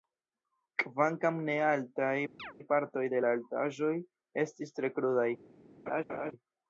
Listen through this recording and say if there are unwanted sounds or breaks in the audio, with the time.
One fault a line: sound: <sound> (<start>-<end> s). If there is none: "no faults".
sound: chirp (2.4-2.5 s)
sound: laugh (5.9-6.3 s)